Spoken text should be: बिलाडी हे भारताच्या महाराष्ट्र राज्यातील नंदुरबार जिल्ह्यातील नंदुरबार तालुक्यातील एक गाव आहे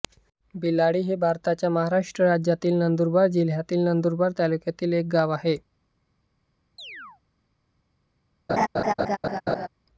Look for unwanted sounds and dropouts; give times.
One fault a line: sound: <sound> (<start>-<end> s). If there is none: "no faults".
sound: chirp (6.8-7.2 s)
sound: laugh (8.5-9.7 s)